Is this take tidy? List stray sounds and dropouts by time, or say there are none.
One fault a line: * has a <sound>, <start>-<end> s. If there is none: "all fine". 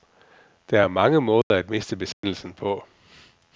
* has a dropout, 1.4-1.5 s
* has a dropout, 2.1-2.2 s